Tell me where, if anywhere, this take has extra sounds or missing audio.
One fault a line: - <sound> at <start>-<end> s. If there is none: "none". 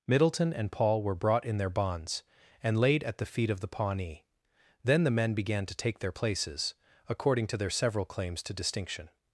none